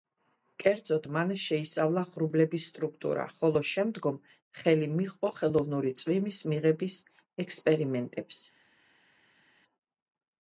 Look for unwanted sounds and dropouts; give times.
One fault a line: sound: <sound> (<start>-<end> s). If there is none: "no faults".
no faults